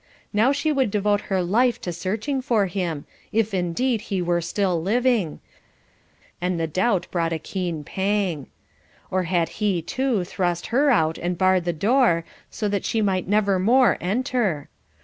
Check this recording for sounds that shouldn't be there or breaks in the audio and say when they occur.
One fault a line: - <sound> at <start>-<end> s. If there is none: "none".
none